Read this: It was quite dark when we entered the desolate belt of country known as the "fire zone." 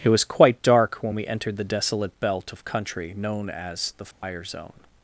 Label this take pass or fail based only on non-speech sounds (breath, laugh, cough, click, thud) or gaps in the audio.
fail